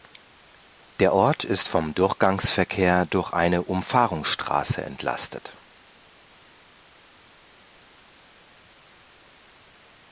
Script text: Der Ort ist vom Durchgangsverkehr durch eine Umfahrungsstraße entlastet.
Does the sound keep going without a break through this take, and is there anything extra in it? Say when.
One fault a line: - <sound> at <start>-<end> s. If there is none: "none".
none